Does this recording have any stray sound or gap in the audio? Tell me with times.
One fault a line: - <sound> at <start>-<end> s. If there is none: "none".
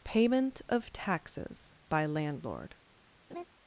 - laugh at 3.3-3.4 s